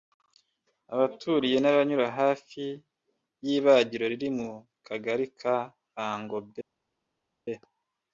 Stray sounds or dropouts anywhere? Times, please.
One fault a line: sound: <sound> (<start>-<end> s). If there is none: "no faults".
no faults